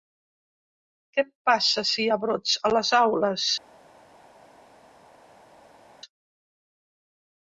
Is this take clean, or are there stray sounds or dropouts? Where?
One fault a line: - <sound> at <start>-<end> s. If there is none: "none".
none